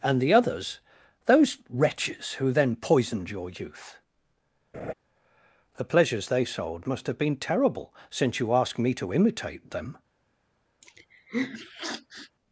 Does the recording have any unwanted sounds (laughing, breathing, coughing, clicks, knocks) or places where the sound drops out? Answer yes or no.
yes